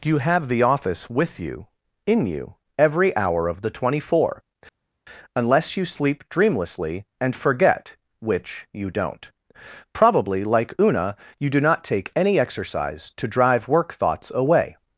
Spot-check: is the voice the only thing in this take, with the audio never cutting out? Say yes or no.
yes